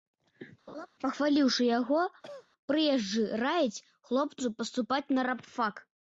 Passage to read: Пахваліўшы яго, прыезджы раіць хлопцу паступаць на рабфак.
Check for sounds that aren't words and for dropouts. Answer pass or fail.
fail